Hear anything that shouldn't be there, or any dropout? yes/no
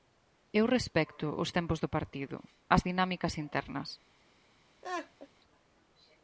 yes